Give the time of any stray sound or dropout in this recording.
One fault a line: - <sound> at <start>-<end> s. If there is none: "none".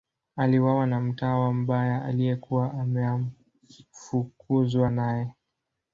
none